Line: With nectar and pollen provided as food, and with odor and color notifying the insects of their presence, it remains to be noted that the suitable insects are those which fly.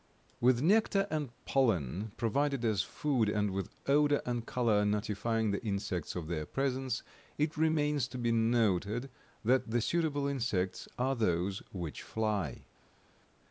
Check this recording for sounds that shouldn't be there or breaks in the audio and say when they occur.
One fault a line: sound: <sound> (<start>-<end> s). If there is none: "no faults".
no faults